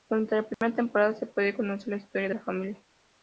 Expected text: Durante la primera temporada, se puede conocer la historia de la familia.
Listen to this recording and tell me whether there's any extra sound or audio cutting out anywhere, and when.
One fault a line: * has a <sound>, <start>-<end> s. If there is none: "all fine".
* has a dropout, 0.5-0.6 s